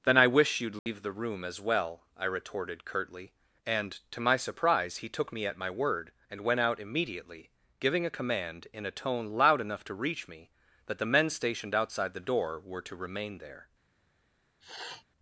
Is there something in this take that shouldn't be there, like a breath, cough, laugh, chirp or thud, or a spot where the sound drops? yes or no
yes